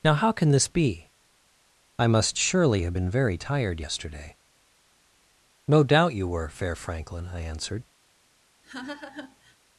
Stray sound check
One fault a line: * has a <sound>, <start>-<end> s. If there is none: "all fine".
* has a laugh, 8.6-9.6 s